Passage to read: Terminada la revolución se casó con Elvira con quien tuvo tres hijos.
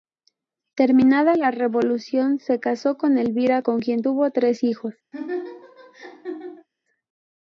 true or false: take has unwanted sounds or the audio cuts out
true